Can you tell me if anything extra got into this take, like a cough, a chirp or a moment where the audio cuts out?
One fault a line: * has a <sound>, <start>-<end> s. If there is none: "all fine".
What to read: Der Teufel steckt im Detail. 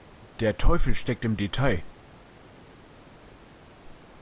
all fine